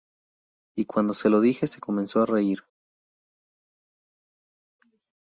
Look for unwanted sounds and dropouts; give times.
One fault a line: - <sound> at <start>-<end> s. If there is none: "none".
none